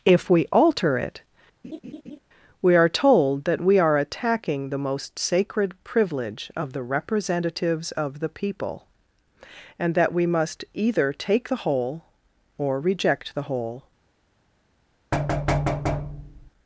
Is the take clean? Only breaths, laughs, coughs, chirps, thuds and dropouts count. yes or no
no